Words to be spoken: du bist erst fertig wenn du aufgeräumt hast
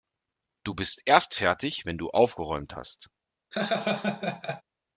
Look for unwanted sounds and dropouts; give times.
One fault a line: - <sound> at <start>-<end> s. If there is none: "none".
- laugh at 3.5-4.6 s